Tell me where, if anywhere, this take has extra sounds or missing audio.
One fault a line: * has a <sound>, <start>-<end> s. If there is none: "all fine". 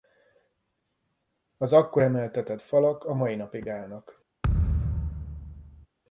* has a thud, 4.4-5.9 s